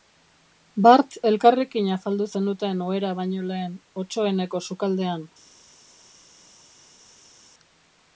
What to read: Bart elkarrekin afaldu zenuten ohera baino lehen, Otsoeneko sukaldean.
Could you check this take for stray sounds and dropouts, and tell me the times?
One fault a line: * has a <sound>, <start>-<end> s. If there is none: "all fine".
all fine